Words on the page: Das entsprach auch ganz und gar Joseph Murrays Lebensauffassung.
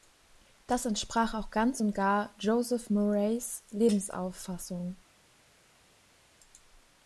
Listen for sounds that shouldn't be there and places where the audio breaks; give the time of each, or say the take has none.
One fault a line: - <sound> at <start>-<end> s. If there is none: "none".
none